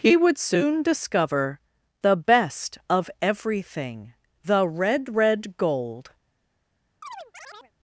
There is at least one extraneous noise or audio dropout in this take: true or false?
true